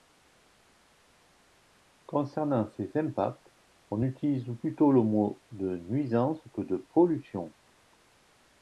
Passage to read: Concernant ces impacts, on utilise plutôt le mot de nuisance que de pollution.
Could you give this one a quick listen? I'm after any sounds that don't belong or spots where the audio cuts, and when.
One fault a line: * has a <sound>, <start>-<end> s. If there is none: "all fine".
all fine